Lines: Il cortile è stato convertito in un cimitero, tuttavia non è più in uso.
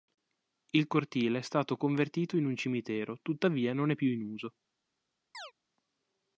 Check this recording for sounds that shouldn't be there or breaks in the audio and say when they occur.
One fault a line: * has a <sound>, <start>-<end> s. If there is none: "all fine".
* has a chirp, 5.3-5.5 s